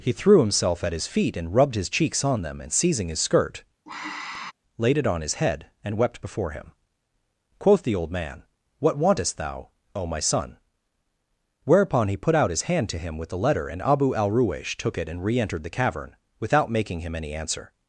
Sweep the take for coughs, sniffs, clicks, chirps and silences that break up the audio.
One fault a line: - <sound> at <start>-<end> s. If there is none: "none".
- sigh at 3.9-4.5 s